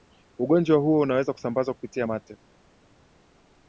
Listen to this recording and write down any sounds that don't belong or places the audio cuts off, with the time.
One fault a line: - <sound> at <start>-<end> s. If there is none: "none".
none